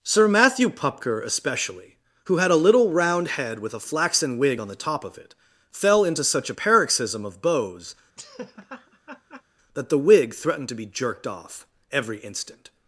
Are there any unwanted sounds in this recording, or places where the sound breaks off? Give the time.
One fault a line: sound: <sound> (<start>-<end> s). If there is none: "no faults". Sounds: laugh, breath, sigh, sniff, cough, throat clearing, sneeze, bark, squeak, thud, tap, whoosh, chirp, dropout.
sound: laugh (8.2-9.4 s)